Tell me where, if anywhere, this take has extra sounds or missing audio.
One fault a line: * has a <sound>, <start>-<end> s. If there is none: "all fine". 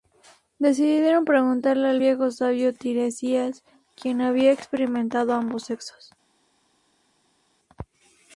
all fine